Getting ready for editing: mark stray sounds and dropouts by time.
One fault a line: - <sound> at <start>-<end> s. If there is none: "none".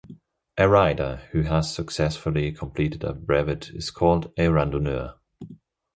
none